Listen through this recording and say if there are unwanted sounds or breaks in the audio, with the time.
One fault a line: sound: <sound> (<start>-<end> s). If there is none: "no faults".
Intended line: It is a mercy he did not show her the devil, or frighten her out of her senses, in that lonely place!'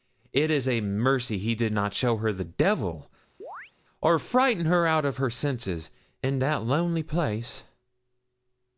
sound: chirp (3.4-3.7 s)